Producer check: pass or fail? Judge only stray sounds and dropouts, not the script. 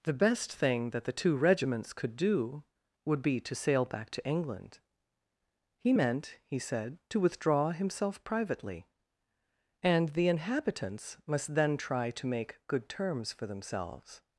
pass